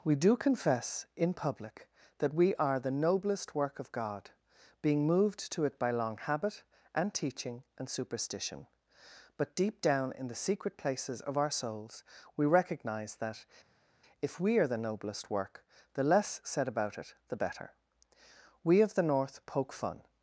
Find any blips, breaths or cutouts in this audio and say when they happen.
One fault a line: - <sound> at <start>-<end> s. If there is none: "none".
none